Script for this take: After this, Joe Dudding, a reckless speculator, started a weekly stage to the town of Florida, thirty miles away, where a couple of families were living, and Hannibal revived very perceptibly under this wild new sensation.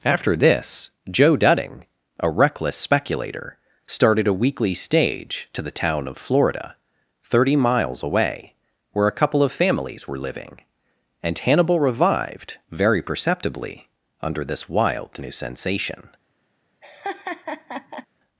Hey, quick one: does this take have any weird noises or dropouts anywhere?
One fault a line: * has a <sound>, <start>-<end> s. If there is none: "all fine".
* has a laugh, 16.8-18.1 s